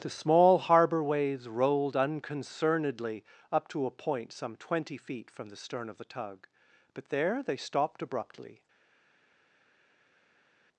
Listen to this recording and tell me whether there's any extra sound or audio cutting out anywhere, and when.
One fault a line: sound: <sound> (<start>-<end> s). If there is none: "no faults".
no faults